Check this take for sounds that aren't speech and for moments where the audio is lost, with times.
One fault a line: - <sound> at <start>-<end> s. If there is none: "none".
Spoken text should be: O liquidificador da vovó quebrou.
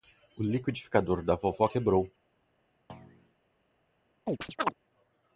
- thud at 2.9-3.3 s
- chirp at 4.3-4.7 s